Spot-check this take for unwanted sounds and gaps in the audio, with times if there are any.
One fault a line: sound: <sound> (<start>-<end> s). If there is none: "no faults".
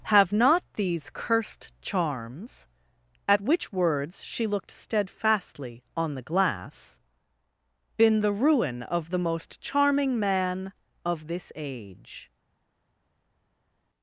no faults